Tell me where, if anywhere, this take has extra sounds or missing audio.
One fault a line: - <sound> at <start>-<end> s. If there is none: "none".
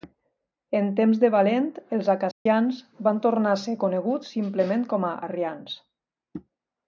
- dropout at 2.3-2.5 s